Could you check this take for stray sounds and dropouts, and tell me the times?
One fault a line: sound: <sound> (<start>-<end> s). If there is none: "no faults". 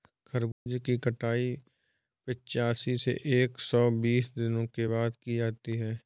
sound: dropout (0.5-0.7 s)